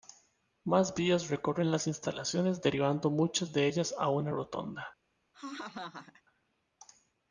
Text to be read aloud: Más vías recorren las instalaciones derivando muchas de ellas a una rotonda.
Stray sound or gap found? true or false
true